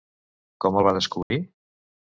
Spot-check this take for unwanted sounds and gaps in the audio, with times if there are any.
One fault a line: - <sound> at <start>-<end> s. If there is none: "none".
- dropout at 1.2-1.3 s